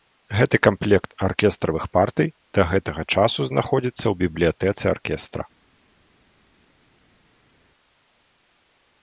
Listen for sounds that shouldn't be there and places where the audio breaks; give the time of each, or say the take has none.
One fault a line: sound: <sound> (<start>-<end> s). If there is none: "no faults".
no faults